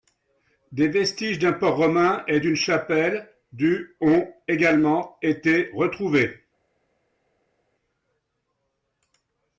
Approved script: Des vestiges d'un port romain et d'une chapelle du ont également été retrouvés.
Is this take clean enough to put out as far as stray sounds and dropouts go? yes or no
yes